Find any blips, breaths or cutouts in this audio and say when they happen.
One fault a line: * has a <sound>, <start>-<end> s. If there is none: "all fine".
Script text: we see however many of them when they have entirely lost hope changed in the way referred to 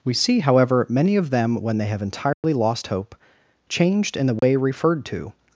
* has a dropout, 2.3-2.4 s
* has a dropout, 4.4-4.4 s